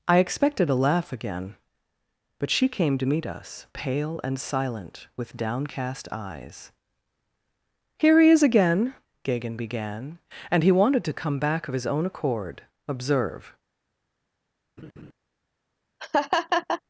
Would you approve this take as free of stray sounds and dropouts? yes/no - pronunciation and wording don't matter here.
no